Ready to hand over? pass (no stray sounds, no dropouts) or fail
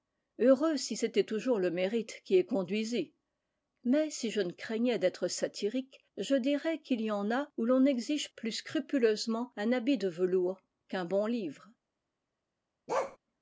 fail